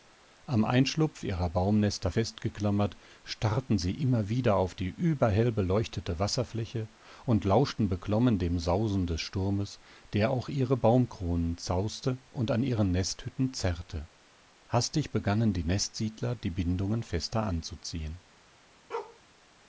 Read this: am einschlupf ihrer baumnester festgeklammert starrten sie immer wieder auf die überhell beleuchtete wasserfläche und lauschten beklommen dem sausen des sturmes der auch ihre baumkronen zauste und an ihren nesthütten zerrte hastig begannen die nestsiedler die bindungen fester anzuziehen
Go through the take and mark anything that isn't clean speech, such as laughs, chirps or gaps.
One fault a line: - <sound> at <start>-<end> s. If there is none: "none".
- bark at 18.9-19.2 s